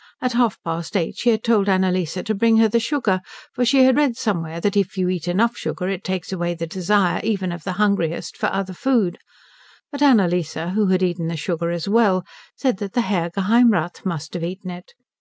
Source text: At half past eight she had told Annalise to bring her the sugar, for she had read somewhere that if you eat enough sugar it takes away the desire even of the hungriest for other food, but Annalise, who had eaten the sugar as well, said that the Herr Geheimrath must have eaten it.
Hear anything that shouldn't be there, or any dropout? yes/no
no